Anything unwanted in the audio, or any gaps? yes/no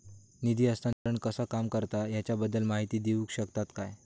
yes